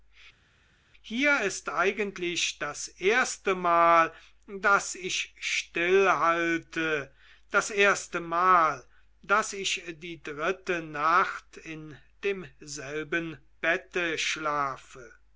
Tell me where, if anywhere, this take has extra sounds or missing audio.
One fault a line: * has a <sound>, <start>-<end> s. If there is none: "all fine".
all fine